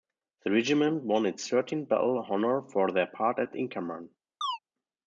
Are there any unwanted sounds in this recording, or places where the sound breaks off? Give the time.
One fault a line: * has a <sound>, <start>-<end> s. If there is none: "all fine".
* has a chirp, 4.4-4.6 s